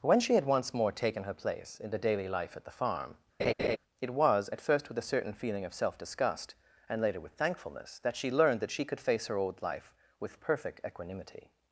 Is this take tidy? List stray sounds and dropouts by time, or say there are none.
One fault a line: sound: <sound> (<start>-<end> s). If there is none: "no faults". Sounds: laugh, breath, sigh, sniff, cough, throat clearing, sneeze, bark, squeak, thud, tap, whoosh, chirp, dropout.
sound: laugh (3.4-3.8 s)